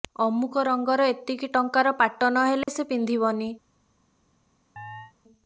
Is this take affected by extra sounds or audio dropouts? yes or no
yes